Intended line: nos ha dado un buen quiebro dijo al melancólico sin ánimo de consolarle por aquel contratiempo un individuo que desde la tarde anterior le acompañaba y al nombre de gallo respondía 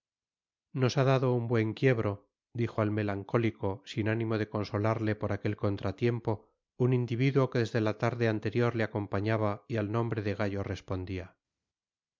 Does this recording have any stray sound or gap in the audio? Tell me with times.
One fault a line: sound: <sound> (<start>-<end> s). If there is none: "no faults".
no faults